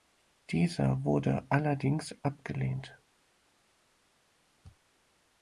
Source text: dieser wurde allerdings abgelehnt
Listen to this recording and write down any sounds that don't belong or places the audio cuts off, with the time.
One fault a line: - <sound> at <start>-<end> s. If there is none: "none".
none